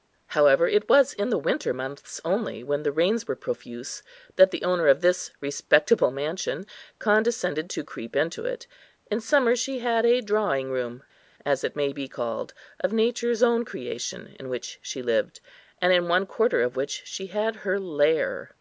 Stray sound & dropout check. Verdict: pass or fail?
pass